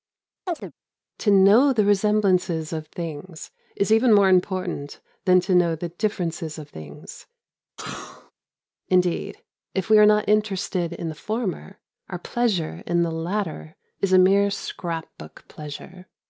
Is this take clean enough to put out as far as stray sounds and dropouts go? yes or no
no